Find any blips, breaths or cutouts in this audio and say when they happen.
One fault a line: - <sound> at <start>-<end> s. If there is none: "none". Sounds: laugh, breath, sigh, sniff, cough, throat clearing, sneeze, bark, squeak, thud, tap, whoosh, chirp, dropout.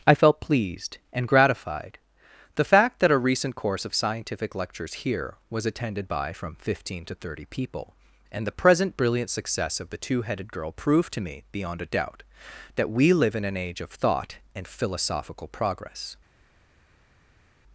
none